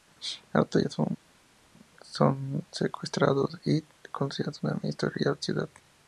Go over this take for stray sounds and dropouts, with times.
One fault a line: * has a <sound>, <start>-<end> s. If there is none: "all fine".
all fine